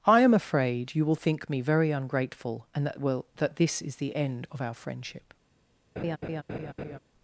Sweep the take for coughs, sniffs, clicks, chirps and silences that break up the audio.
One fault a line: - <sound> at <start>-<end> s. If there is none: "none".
- laugh at 6.0-7.0 s